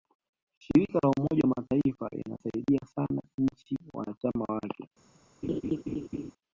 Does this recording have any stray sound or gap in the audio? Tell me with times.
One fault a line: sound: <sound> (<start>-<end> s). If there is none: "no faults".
sound: laugh (5.4-6.3 s)